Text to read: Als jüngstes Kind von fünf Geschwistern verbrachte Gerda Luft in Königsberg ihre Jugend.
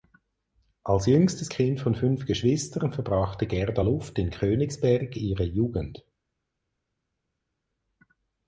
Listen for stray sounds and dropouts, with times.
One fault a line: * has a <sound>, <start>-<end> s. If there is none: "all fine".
all fine